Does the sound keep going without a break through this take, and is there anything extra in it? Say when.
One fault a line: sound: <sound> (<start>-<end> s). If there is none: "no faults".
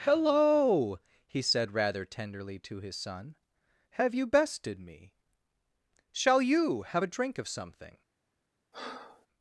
sound: breath (8.7-9.3 s)